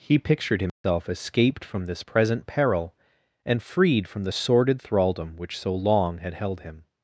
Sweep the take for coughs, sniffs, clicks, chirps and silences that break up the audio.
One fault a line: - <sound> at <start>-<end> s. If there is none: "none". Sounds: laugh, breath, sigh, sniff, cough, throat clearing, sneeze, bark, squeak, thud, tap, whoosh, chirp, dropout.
- dropout at 0.7-0.8 s